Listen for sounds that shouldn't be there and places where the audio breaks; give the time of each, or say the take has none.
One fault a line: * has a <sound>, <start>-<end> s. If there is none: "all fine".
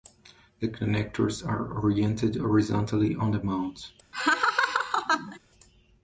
* has a laugh, 4.1-5.4 s